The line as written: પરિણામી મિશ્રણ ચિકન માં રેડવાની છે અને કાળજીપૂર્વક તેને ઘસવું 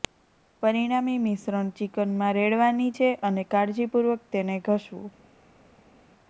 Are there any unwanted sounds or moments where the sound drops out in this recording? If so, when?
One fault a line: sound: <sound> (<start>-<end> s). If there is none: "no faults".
no faults